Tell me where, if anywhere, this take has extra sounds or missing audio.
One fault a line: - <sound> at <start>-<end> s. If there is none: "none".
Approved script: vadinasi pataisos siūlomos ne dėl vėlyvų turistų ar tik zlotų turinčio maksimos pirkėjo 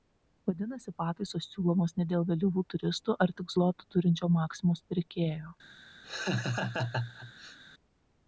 - laugh at 6.0-7.6 s